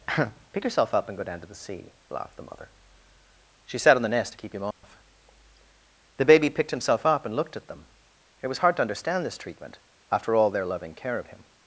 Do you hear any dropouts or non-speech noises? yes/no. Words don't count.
yes